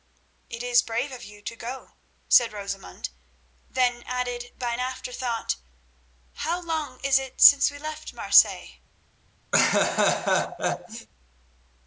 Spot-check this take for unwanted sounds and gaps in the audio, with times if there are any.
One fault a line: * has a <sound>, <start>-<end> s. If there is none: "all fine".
* has a laugh, 9.5-11.1 s